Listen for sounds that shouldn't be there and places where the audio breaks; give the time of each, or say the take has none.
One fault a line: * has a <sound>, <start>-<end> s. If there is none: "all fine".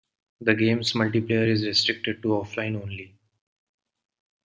all fine